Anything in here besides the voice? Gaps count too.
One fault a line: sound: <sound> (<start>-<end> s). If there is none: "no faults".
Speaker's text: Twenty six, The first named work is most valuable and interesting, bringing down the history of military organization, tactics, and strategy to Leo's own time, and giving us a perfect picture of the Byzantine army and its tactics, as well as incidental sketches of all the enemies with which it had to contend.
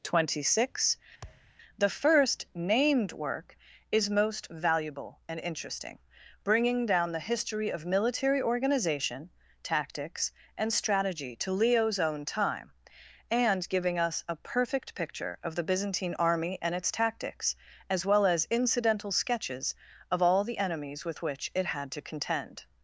sound: thud (1.2-1.5 s)